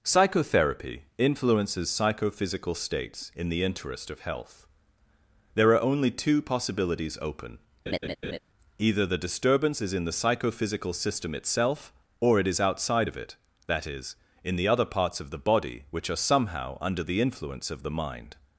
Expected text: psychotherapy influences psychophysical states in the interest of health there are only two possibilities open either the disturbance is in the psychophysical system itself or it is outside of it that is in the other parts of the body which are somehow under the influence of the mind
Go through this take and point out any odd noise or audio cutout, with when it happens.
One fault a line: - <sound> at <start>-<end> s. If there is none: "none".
- laugh at 7.9-8.4 s